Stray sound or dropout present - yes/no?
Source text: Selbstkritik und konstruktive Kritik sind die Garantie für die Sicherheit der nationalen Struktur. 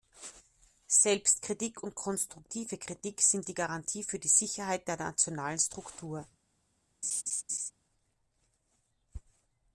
yes